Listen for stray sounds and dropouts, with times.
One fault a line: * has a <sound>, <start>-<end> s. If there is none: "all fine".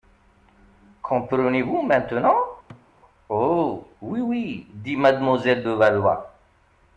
* has a thud, 2.7-2.9 s